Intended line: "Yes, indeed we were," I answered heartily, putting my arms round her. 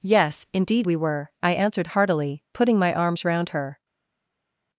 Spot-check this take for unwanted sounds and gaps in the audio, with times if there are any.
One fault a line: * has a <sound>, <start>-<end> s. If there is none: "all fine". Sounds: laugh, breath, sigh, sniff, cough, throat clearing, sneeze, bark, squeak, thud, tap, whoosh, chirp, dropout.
all fine